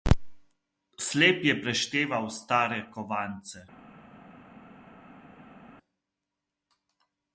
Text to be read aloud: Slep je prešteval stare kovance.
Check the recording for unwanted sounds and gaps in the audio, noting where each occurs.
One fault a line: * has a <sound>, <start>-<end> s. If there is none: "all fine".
all fine